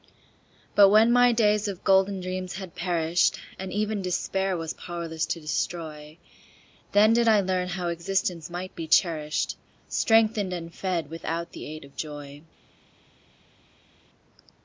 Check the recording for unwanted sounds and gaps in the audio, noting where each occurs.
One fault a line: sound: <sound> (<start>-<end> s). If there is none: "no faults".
no faults